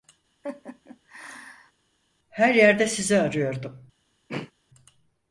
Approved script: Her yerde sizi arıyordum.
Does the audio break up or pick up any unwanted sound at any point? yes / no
yes